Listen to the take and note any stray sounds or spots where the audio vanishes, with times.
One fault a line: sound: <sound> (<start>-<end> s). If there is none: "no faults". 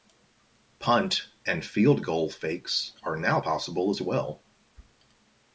no faults